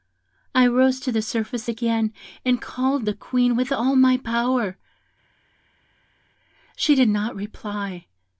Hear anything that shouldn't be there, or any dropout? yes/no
no